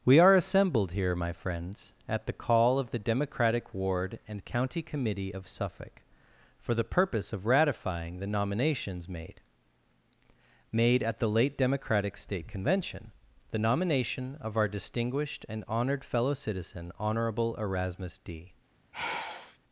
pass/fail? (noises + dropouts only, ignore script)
fail